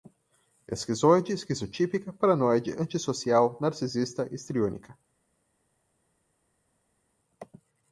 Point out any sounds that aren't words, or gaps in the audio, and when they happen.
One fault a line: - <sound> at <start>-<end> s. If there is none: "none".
none